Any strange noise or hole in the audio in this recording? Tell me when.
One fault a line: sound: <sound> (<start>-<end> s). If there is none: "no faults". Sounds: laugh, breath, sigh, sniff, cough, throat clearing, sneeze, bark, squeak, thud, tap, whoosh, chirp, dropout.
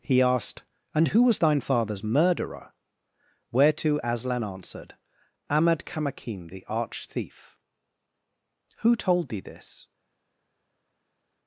no faults